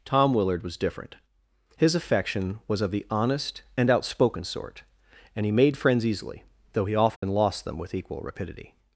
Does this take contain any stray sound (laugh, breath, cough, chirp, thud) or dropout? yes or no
yes